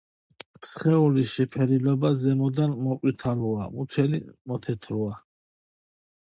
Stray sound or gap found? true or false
false